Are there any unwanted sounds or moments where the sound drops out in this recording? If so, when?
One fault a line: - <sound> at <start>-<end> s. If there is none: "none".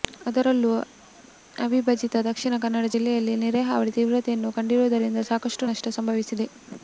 none